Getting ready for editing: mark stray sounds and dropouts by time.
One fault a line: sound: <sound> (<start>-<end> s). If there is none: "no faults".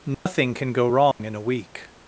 sound: dropout (0.1-0.3 s)
sound: dropout (1.1-1.2 s)